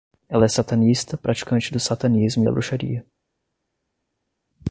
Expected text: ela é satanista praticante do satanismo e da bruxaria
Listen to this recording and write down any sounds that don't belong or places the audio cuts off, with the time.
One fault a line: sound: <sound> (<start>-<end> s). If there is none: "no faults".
no faults